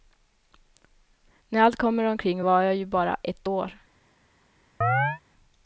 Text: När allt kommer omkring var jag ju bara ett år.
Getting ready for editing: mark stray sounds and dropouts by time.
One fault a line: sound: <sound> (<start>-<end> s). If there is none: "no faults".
sound: chirp (4.8-5.2 s)